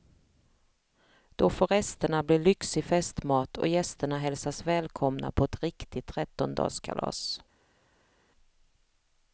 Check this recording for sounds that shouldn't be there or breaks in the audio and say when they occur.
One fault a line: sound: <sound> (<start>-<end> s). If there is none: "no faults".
no faults